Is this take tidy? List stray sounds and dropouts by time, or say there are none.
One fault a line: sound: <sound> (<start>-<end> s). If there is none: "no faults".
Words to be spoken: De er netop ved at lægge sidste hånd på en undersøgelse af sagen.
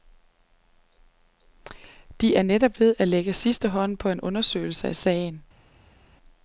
no faults